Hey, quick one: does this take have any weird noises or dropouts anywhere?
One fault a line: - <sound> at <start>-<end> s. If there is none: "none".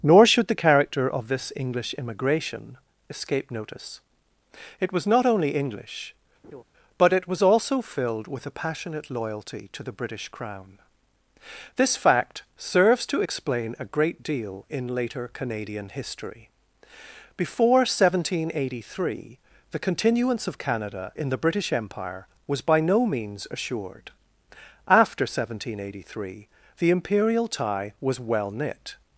- laugh at 6.4-6.6 s